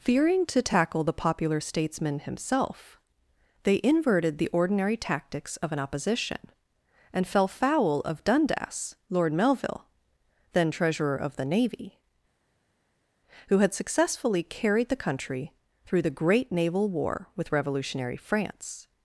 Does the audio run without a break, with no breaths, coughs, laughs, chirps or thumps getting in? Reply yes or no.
yes